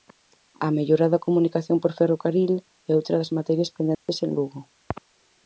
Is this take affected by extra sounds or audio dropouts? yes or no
yes